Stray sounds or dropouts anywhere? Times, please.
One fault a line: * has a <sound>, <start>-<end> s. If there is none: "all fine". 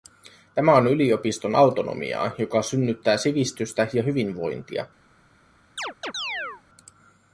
* has a chirp, 5.8-6.6 s